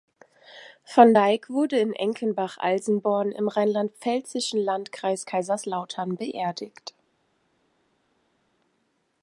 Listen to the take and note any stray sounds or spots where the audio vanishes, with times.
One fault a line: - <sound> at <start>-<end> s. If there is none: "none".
none